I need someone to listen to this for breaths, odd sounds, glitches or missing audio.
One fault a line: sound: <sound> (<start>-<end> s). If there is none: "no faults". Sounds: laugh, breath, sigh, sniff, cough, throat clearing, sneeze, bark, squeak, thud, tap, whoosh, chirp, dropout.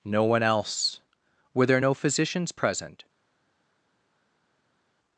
no faults